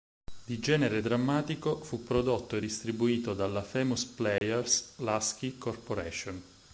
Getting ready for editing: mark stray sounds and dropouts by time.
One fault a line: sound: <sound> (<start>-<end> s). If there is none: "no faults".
sound: dropout (4.4-4.4 s)